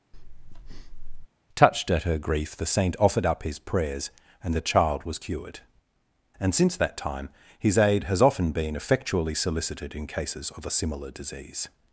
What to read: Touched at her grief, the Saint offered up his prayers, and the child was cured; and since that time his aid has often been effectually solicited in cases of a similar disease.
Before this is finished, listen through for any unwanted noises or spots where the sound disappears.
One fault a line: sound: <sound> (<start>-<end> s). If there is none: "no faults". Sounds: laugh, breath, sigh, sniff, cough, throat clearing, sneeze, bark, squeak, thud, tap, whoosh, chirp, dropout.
sound: breath (0.1-1.3 s)